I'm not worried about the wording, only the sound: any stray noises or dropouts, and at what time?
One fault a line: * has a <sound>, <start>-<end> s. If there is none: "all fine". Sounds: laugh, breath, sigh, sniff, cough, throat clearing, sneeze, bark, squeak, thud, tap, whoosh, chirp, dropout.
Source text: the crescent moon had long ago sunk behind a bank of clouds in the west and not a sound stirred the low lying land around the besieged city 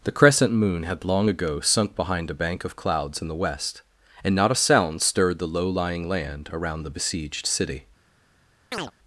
* has a chirp, 8.7-8.9 s